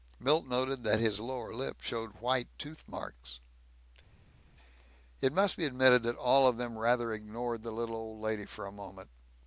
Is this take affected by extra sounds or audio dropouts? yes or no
no